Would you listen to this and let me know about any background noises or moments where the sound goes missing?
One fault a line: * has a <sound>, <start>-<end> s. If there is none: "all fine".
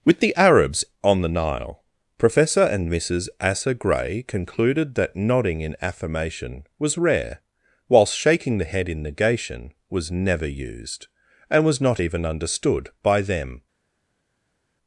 all fine